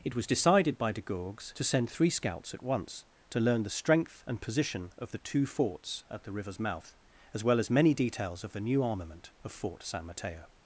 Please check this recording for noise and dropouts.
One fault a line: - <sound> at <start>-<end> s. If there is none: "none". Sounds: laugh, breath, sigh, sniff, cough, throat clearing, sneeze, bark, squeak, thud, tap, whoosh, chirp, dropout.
none